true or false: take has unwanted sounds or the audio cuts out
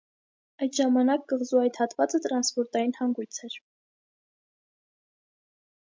false